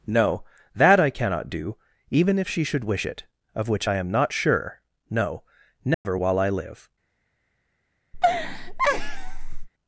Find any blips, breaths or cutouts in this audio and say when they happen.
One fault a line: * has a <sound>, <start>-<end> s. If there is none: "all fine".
* has a dropout, 5.9-6.1 s
* has a laugh, 8.1-9.7 s